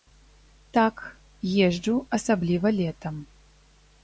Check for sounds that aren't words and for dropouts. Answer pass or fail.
pass